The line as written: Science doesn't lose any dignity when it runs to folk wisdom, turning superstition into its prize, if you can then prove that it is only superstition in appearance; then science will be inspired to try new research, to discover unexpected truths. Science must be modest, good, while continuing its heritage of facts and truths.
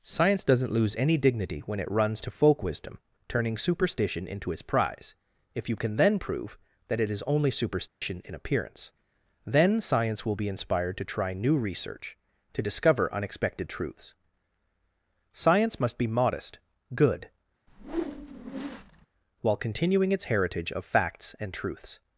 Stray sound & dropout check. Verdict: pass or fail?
fail